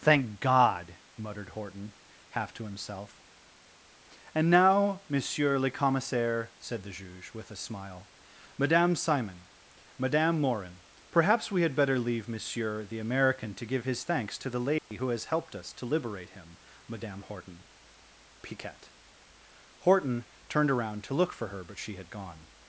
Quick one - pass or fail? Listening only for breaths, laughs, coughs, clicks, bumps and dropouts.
fail